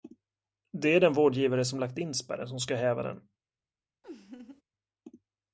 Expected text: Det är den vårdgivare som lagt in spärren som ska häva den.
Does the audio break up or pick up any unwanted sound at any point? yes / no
yes